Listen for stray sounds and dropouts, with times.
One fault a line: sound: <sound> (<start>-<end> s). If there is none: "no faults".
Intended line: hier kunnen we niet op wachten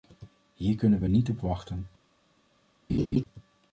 sound: laugh (2.9-3.2 s)